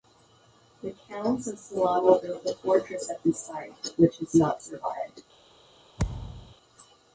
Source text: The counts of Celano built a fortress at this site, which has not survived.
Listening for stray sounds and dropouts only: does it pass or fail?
fail